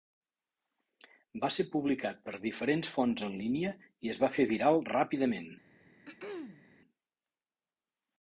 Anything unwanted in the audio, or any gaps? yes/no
yes